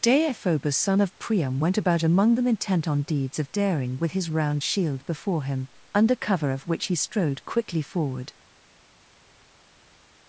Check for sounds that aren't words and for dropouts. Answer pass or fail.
pass